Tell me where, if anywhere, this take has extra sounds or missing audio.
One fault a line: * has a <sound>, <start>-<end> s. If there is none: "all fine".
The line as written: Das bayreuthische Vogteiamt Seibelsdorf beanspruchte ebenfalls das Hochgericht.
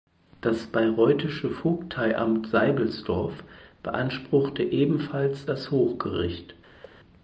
* has a thud, 6.8-7.0 s